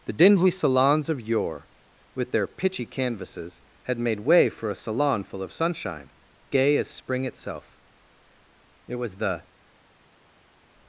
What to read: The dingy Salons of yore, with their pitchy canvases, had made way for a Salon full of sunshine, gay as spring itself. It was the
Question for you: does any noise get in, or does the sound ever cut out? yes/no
no